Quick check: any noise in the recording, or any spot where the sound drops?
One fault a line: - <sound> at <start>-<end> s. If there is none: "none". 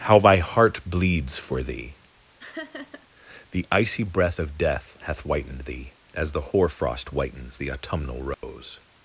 - laugh at 2.4-3.1 s
- dropout at 8.3-8.4 s